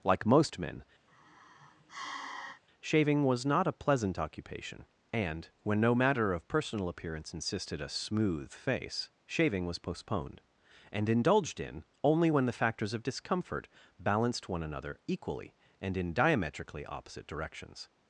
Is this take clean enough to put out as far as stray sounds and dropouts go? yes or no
no